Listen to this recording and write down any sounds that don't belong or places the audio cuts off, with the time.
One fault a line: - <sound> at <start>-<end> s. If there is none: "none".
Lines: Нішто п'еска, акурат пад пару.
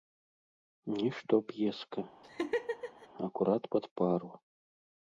- laugh at 2.2-3.1 s